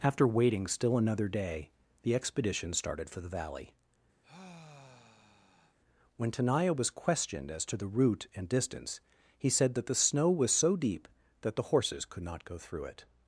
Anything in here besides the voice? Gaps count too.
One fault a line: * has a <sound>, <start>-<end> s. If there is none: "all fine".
* has a sigh, 4.2-5.8 s